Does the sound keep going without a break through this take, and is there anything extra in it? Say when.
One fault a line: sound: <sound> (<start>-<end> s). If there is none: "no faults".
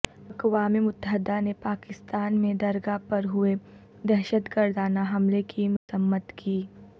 sound: dropout (5.8-5.9 s)